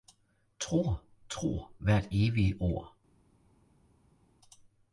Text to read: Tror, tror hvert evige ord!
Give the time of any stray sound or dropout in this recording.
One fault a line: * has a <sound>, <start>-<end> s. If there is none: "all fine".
all fine